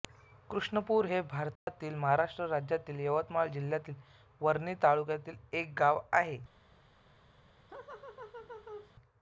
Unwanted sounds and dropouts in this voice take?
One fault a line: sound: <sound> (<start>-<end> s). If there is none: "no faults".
sound: dropout (1.6-1.7 s)
sound: laugh (7.7-8.9 s)